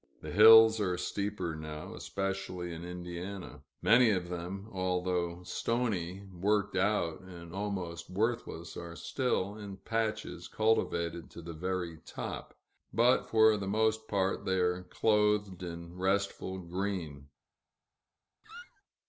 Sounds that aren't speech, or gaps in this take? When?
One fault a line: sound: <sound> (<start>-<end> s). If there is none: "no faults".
sound: squeak (18.4-18.8 s)